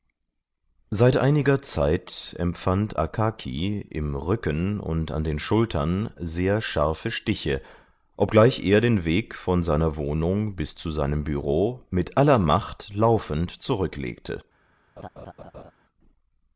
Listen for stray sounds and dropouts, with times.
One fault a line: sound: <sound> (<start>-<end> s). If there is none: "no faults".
sound: laugh (15.0-15.7 s)